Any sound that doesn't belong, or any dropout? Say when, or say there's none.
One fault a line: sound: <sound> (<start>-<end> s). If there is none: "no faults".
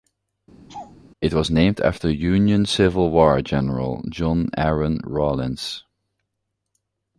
sound: laugh (0.7-1.0 s)